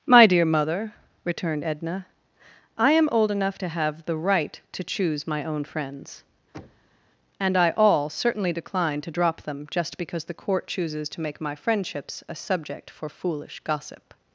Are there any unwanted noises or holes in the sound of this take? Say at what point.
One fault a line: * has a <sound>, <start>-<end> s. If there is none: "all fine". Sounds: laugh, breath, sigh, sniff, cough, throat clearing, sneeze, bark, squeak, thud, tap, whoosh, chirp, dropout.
* has a thud, 6.5-7.1 s